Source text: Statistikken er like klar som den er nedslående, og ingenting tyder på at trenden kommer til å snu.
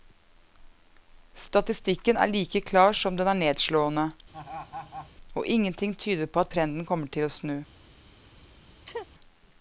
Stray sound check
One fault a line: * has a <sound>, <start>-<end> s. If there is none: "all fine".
* has a laugh, 4.3-5.1 s
* has a sneeze, 8.8-9.1 s